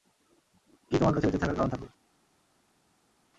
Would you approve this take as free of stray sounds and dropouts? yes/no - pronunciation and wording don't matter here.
yes